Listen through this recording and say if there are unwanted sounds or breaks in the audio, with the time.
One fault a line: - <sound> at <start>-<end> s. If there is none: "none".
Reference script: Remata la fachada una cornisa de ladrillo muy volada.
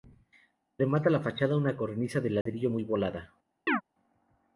- dropout at 2.4-2.5 s
- chirp at 3.7-3.8 s